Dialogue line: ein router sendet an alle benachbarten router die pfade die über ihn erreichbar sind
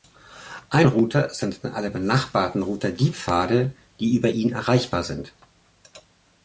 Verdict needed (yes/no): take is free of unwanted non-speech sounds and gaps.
yes